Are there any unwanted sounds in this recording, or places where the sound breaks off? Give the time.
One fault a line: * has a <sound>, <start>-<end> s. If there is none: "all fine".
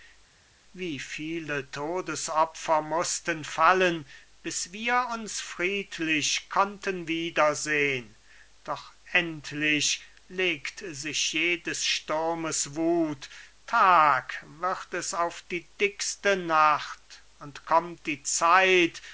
all fine